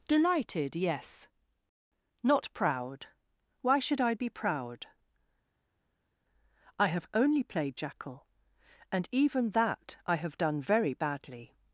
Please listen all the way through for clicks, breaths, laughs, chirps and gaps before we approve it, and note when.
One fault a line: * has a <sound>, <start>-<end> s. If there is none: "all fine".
all fine